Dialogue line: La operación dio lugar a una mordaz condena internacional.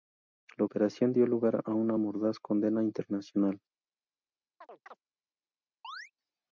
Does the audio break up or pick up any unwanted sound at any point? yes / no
yes